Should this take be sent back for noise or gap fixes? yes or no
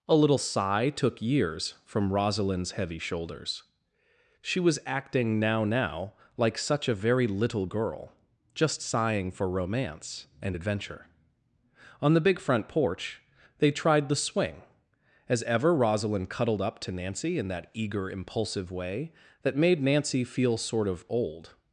no